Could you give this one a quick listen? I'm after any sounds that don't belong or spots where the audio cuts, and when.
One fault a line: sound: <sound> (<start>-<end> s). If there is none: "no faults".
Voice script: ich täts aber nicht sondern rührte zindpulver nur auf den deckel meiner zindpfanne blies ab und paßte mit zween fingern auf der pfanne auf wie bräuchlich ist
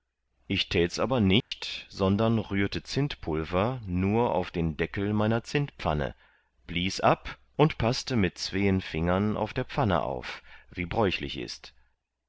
sound: dropout (1.4-1.5 s)